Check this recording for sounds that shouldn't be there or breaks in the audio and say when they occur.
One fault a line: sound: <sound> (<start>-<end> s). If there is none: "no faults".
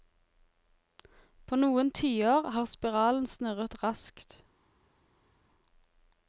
no faults